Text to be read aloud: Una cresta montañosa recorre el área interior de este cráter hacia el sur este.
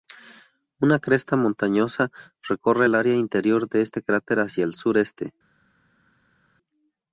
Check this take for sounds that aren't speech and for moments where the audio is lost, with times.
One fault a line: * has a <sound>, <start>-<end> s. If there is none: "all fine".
all fine